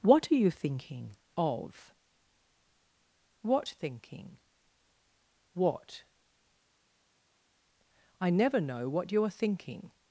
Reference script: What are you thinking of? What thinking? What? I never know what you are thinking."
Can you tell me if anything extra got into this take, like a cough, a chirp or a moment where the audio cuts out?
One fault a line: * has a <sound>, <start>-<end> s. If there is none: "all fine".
all fine